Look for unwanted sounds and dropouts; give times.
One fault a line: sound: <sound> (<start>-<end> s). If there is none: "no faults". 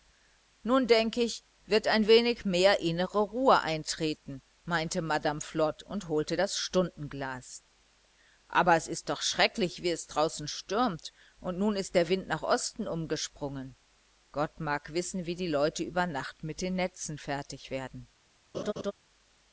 sound: laugh (18.5-18.9 s)